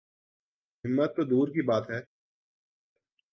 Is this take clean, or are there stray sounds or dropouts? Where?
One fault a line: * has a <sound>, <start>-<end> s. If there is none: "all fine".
all fine